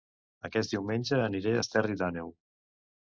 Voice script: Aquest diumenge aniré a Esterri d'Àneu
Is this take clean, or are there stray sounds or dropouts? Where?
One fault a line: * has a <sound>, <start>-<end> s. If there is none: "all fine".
all fine